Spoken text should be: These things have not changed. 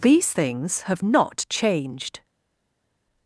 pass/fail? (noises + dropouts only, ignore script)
pass